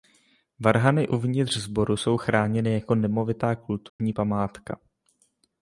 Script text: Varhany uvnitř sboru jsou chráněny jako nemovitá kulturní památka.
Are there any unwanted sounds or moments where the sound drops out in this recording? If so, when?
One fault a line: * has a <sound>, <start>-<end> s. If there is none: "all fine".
* has a dropout, 3.9-4.0 s